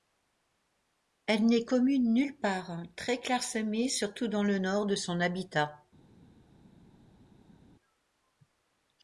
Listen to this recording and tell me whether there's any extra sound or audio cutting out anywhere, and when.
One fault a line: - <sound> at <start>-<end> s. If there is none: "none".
none